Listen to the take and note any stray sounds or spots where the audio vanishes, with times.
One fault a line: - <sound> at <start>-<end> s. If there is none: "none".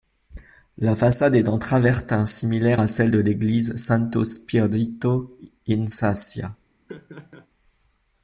- laugh at 6.9-7.5 s